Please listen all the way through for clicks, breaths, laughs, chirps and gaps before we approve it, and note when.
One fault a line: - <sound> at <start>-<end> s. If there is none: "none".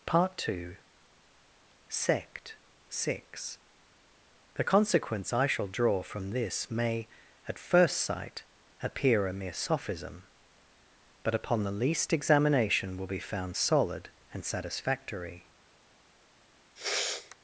- sniff at 16.8-17.4 s